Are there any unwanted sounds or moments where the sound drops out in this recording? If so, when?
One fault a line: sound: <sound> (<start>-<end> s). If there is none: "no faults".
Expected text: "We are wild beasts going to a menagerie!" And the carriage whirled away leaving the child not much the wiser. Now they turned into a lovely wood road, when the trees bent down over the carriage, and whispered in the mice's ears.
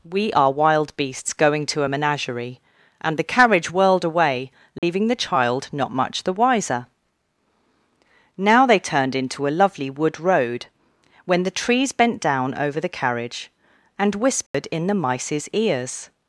sound: dropout (4.8-4.8 s)
sound: dropout (14.5-14.5 s)